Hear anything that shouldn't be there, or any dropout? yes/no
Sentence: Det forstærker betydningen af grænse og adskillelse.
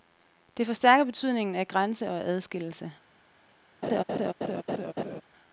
yes